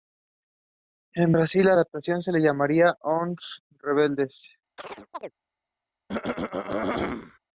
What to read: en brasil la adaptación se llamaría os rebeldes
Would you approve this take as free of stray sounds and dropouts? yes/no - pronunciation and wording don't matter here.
no